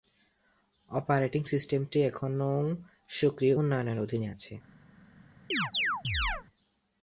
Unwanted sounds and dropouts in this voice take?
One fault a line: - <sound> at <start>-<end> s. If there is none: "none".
- chirp at 5.5-6.4 s